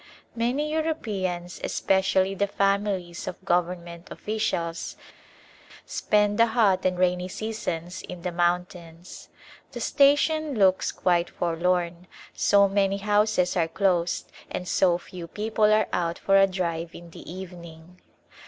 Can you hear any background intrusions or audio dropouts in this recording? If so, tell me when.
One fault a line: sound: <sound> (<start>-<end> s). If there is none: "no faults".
no faults